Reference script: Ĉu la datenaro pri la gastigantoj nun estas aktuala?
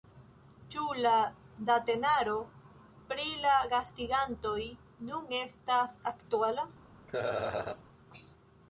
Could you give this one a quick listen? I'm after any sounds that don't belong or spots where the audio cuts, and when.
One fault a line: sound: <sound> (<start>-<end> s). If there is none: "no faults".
sound: laugh (7.1-7.8 s)